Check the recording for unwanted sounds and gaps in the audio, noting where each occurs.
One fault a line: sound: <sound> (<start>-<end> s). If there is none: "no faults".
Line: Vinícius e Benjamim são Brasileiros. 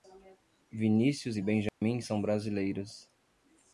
sound: dropout (1.7-1.8 s)